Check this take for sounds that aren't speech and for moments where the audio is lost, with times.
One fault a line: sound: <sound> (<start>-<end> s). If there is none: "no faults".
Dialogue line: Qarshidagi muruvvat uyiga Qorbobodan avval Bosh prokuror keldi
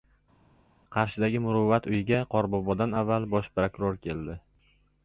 no faults